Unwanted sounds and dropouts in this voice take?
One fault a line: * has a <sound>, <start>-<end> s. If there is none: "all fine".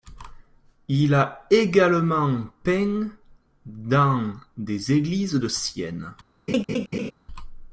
* has a laugh, 6.5-7.1 s